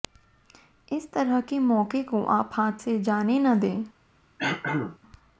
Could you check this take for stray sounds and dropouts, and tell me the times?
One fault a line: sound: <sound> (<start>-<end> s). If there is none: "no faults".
sound: throat clearing (4.4-5.0 s)